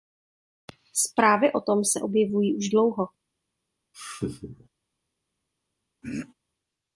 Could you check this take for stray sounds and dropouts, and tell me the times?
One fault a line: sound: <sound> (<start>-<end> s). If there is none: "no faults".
sound: laugh (3.9-4.7 s)
sound: throat clearing (6.0-6.3 s)